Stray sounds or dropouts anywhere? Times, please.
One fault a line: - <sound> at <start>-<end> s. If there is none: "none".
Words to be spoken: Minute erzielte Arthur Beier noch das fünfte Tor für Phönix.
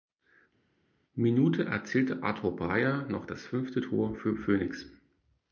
none